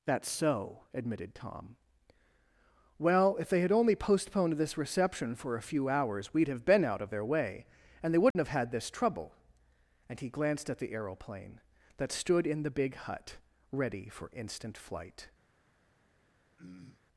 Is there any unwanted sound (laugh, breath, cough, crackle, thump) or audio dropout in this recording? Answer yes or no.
yes